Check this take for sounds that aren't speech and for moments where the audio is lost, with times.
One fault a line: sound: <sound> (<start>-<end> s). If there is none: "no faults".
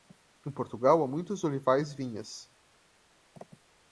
no faults